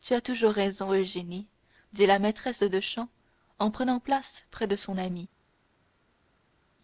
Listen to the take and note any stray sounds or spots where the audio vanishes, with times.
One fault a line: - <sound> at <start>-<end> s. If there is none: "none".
none